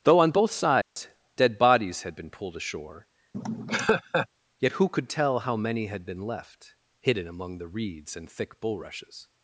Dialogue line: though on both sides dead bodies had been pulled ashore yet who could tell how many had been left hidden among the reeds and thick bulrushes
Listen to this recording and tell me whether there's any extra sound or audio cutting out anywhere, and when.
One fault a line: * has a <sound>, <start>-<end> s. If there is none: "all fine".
* has a dropout, 0.8-1.0 s
* has a laugh, 3.3-4.3 s